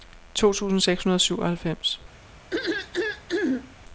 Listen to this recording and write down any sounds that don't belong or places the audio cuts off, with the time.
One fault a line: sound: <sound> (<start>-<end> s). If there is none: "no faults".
sound: throat clearing (2.5-3.8 s)